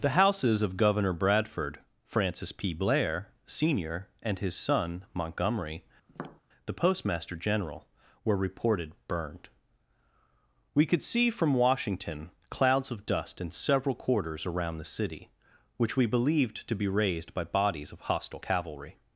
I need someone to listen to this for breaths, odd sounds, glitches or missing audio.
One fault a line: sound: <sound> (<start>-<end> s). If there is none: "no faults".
sound: tap (6.1-6.4 s)